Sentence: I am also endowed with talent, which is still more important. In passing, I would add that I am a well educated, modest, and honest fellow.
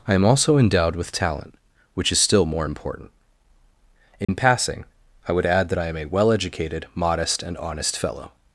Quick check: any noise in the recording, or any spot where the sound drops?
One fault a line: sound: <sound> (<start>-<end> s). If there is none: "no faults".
sound: dropout (4.2-4.3 s)